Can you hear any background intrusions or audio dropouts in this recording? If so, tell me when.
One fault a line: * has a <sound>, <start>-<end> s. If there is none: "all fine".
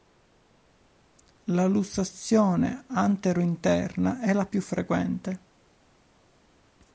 all fine